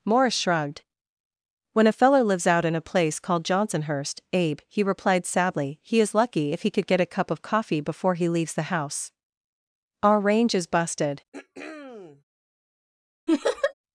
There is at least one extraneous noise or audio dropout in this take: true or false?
true